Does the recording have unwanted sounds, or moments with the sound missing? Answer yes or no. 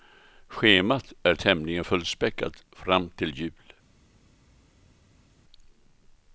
no